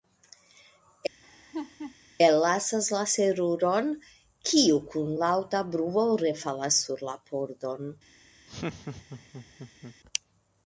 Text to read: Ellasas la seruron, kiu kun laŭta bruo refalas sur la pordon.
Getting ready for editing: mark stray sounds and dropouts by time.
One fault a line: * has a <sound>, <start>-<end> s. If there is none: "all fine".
* has a laugh, 1.2-2.0 s
* has a laugh, 8.5-10.0 s